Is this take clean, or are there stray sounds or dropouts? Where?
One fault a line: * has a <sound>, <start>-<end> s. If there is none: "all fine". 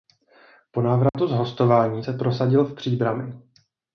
* has a dropout, 1.1-1.1 s